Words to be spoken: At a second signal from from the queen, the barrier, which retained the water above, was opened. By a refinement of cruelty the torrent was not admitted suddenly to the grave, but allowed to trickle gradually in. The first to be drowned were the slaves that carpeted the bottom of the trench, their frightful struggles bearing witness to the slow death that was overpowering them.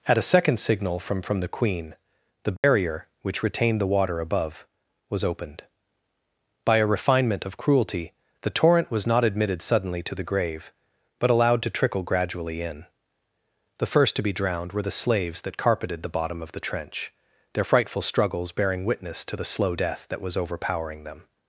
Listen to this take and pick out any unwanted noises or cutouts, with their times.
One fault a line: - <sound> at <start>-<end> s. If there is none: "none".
- dropout at 2.6-2.6 s